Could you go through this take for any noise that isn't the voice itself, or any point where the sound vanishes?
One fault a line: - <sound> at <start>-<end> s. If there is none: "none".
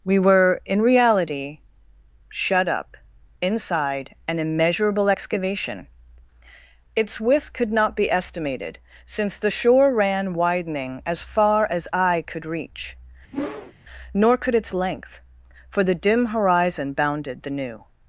- whoosh at 13.3-13.7 s